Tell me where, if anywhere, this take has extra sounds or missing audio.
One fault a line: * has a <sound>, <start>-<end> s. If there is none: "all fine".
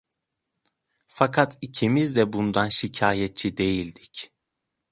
all fine